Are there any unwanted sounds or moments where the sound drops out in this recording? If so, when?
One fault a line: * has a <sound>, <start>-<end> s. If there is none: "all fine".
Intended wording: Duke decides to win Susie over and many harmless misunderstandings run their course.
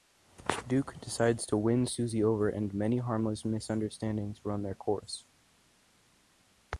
all fine